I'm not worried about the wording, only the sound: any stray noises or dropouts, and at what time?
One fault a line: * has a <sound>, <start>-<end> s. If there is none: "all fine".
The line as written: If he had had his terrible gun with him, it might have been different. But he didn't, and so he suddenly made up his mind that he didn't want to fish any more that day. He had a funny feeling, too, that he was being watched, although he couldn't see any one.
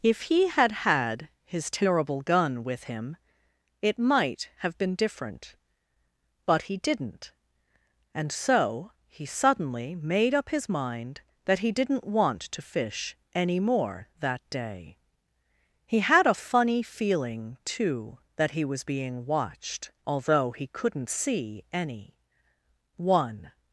all fine